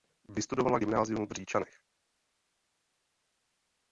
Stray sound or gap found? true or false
false